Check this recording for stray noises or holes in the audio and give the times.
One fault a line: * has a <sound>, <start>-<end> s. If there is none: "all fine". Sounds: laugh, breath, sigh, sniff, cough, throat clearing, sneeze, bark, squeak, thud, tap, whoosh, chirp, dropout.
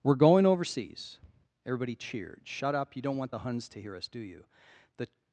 all fine